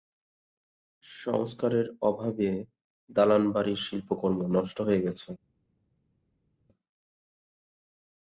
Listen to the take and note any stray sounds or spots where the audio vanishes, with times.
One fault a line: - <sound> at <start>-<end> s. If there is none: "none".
none